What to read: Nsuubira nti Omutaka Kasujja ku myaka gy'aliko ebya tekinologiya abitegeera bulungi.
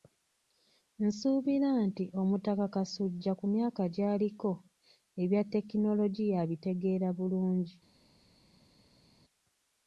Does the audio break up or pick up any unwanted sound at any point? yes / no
no